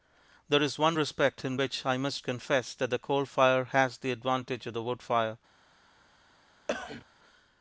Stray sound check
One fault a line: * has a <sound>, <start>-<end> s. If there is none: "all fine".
* has a cough, 6.7-7.1 s